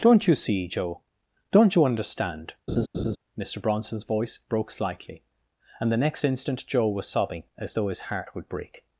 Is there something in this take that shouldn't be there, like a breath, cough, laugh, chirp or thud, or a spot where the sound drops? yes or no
yes